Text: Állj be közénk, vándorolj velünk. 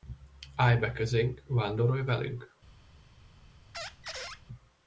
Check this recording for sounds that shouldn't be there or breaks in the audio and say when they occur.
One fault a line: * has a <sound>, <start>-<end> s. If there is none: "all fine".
* has a squeak, 3.7-4.4 s